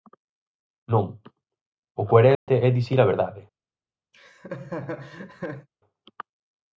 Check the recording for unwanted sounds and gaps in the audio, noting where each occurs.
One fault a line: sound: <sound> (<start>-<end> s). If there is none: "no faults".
sound: dropout (2.3-2.5 s)
sound: laugh (4.1-5.7 s)